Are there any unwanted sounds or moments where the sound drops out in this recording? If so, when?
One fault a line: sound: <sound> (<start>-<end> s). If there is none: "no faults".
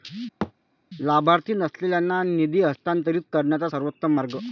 sound: thud (0.4-0.5 s)